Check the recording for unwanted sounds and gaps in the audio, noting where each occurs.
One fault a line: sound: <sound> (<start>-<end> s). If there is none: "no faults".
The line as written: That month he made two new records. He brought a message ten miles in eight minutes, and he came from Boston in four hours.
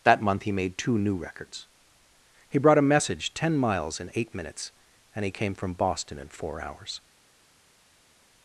no faults